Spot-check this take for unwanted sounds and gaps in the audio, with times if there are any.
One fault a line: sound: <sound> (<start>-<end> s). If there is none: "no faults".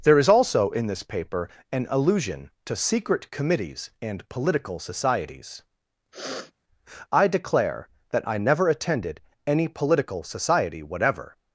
sound: sniff (6.1-6.5 s)